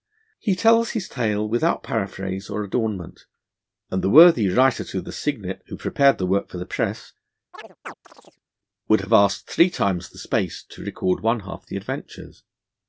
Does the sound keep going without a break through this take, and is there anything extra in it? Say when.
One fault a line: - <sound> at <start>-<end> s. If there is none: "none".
- chirp at 7.5-8.4 s